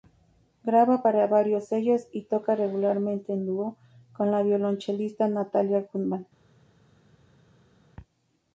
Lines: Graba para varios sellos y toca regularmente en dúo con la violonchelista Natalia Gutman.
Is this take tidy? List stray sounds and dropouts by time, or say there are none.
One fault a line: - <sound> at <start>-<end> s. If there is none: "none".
none